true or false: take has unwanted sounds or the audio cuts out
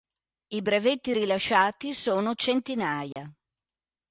true